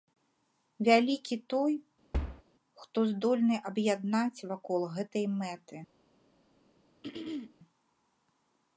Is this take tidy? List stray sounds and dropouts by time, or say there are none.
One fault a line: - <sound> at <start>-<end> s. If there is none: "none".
- thud at 2.1-2.4 s
- throat clearing at 7.0-7.5 s